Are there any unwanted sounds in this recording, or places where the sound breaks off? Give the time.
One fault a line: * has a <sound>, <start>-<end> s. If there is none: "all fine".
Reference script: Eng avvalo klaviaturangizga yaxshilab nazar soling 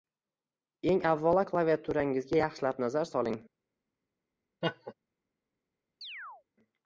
* has a laugh, 4.6-4.9 s
* has a chirp, 6.0-6.4 s